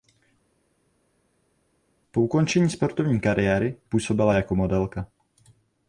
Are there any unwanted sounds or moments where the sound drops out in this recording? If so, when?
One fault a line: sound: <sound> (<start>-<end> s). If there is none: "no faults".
no faults